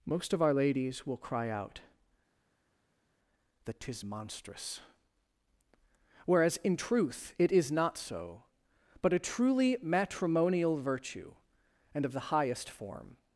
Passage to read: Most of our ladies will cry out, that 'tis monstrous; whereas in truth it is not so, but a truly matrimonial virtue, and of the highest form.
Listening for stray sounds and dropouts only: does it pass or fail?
pass